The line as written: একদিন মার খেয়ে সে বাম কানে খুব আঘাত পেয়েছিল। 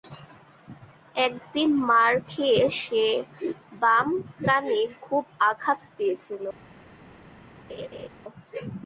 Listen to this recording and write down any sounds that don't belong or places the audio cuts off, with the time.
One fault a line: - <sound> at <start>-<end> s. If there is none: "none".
- laugh at 7.7-8.1 s